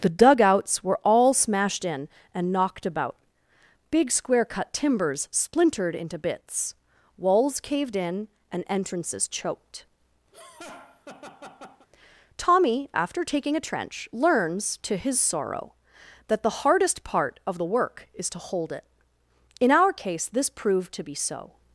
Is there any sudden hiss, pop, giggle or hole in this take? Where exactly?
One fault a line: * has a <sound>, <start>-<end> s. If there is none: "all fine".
* has a laugh, 10.3-11.9 s